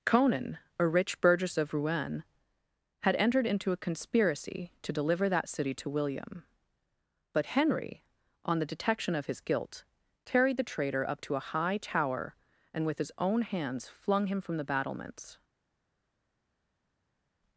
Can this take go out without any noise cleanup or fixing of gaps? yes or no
yes